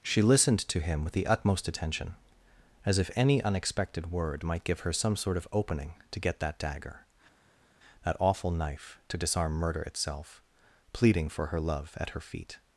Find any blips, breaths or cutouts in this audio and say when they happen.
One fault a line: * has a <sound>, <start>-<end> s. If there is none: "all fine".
all fine